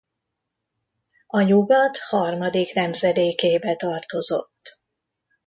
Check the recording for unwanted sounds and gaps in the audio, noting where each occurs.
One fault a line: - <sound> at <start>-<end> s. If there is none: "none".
none